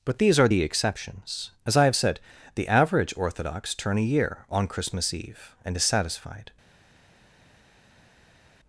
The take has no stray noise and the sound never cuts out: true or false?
true